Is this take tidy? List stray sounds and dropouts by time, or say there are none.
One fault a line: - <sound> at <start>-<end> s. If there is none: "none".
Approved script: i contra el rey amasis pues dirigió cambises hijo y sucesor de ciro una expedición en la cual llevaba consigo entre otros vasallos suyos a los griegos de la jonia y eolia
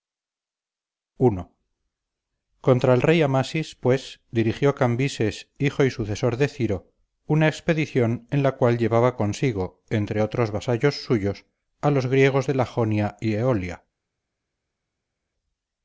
none